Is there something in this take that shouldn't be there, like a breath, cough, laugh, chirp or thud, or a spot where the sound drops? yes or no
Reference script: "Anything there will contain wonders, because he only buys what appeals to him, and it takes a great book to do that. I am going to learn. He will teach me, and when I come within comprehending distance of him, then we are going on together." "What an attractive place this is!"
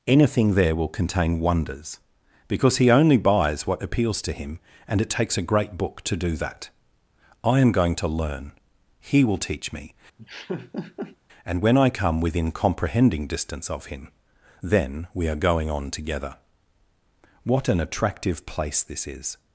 yes